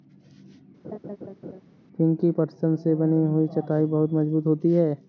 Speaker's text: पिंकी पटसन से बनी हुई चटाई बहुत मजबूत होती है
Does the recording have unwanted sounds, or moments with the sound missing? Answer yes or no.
yes